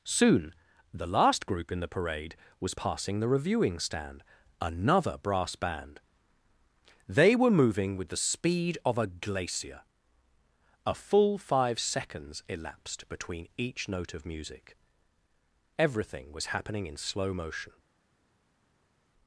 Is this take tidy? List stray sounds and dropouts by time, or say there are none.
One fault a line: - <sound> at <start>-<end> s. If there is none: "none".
none